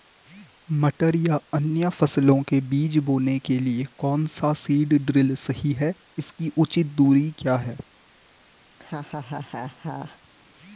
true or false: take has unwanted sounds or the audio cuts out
true